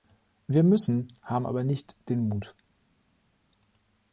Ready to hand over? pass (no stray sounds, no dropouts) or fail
pass